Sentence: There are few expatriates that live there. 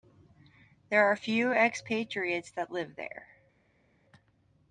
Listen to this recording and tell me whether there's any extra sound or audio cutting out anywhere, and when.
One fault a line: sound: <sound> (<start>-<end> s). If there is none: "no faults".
no faults